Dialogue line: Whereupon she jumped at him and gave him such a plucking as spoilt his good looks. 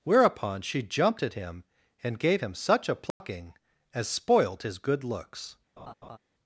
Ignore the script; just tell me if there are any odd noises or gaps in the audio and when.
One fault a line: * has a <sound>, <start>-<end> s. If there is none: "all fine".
* has a dropout, 3.1-3.2 s
* has a laugh, 5.8-6.2 s